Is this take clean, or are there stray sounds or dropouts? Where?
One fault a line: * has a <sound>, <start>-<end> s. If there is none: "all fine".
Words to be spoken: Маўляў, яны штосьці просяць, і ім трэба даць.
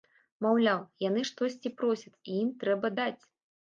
all fine